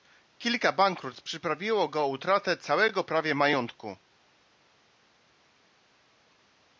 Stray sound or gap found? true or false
false